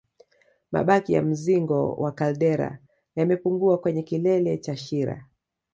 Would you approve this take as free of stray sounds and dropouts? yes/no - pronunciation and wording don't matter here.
yes